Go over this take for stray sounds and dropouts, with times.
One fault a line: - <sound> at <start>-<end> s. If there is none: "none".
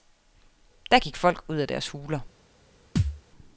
- thud at 3.0-3.2 s